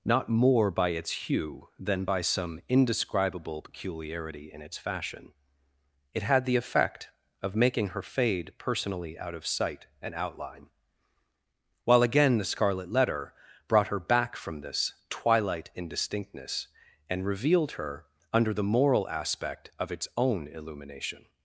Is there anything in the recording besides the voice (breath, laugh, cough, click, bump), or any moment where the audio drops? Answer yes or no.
no